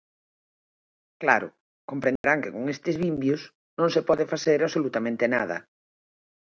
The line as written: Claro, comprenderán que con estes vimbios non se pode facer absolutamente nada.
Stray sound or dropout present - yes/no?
yes